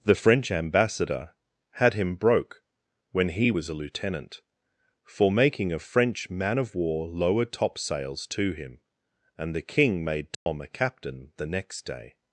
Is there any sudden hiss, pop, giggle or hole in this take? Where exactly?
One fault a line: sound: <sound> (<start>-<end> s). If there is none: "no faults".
sound: dropout (10.3-10.5 s)